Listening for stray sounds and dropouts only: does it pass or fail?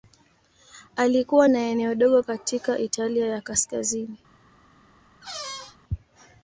fail